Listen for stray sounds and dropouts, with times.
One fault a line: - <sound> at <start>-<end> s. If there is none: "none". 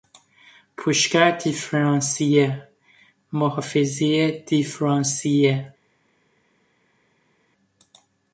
none